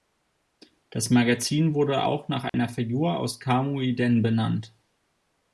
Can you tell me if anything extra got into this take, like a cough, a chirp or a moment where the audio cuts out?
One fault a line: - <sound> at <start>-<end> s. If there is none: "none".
- dropout at 2.5-2.5 s